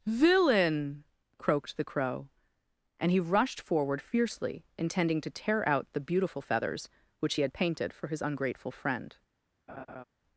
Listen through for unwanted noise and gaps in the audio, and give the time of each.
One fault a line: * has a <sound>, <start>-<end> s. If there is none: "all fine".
* has a laugh, 9.7-10.0 s